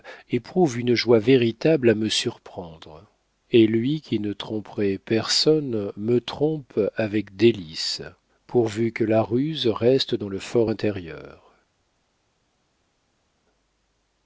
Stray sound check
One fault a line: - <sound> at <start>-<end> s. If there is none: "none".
none